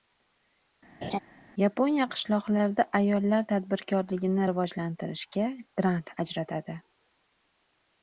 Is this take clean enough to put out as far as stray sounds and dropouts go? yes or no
no